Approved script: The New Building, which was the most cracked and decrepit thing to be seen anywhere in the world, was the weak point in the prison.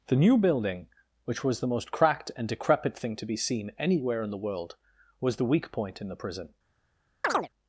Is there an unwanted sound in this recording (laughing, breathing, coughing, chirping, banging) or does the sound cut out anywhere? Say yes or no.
yes